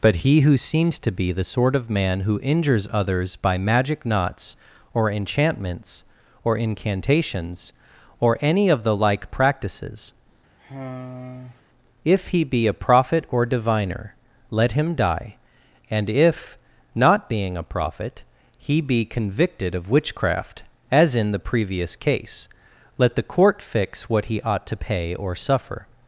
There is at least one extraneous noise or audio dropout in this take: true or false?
true